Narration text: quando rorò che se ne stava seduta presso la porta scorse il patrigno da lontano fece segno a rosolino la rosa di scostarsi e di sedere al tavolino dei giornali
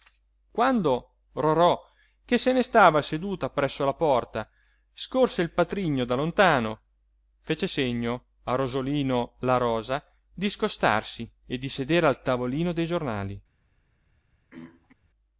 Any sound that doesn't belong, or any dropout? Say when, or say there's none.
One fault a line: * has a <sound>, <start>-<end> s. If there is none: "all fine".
* has a throat clearing, 14.5-14.9 s